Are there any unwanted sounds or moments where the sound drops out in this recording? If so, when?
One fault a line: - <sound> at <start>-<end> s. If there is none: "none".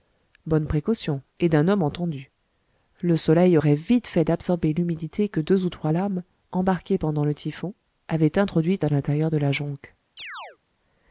- chirp at 10.2-10.6 s